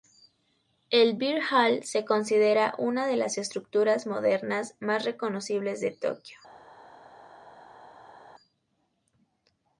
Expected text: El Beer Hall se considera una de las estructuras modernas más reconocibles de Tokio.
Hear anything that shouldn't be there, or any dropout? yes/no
no